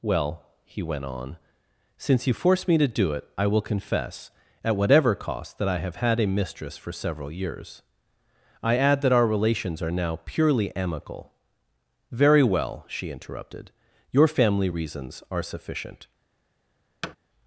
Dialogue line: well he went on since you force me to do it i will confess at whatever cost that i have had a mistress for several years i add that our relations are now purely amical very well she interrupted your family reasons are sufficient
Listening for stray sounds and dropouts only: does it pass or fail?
fail